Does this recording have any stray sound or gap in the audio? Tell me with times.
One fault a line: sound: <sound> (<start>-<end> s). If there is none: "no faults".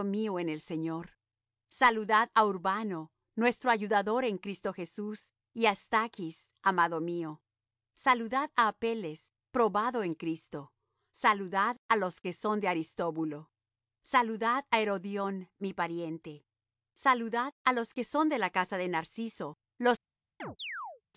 sound: chirp (20.4-21.0 s)